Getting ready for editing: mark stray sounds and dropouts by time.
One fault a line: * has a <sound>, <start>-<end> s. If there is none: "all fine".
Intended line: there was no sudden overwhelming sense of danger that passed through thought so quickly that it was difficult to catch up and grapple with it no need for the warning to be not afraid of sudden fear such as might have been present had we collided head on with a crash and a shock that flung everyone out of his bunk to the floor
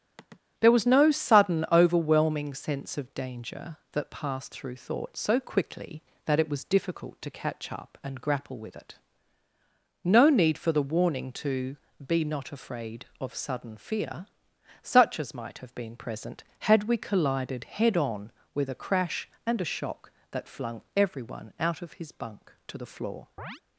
* has a sigh, 0.2-0.4 s
* has a chirp, 23.4-23.6 s